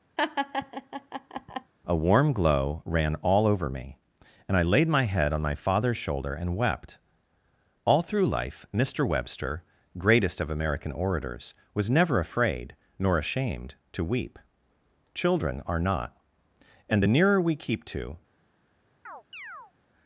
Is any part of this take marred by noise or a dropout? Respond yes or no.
yes